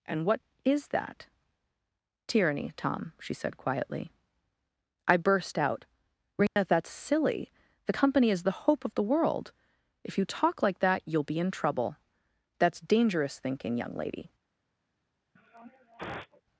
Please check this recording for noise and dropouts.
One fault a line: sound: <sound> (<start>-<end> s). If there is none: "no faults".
sound: dropout (6.5-6.6 s)
sound: sniff (15.4-16.4 s)